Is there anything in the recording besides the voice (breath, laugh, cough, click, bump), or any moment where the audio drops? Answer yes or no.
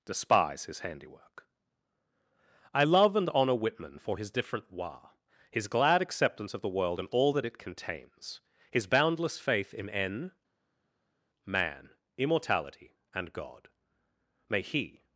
no